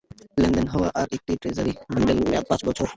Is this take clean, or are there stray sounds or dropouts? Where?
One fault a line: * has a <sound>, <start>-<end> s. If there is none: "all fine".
all fine